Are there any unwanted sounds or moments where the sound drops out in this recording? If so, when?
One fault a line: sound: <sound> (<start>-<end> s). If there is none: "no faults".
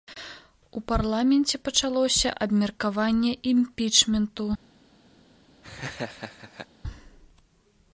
sound: laugh (5.6-6.7 s)